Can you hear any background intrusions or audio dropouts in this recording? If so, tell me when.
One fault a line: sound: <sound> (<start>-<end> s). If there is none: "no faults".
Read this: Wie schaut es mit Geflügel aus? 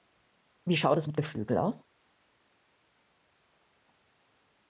no faults